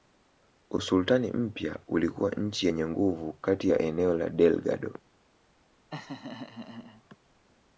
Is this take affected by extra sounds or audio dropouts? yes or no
yes